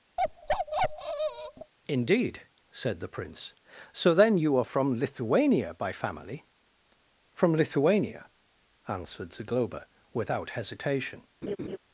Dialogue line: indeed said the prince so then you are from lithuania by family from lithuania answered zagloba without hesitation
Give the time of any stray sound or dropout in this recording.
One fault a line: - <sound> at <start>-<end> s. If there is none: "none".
- bark at 0.2-1.7 s
- laugh at 11.4-11.8 s